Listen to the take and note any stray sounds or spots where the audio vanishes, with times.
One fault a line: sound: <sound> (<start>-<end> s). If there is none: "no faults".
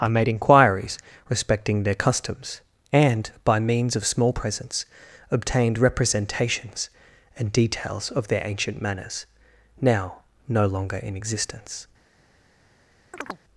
sound: chirp (13.1-13.4 s)